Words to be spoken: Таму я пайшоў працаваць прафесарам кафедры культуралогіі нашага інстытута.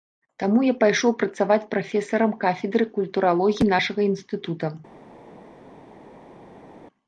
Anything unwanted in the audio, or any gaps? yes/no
no